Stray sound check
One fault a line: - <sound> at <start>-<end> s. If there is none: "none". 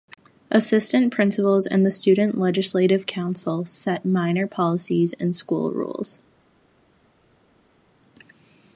none